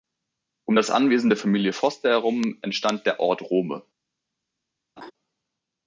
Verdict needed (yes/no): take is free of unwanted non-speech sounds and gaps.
no